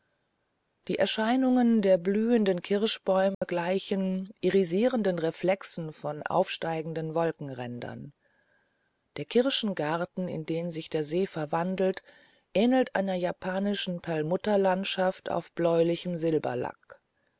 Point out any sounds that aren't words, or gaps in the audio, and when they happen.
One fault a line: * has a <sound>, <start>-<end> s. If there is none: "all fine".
* has a dropout, 3.3-3.4 s